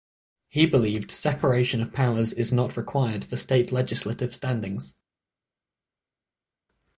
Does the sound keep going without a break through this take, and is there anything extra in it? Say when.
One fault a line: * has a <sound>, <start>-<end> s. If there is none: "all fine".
all fine